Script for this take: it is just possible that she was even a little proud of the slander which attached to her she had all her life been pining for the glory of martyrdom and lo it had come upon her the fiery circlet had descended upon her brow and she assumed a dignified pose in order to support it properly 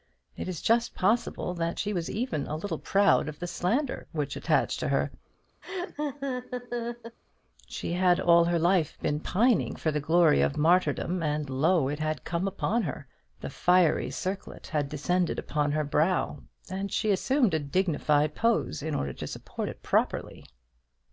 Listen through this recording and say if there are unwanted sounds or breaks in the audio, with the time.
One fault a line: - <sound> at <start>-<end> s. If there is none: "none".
- laugh at 5.6-7.2 s